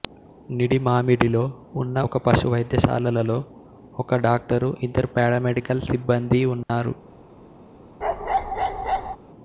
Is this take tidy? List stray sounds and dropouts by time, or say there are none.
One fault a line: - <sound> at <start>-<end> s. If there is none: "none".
- dropout at 6.6-6.7 s
- bark at 8.0-9.2 s